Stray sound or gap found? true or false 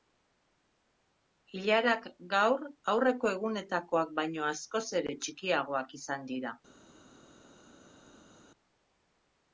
false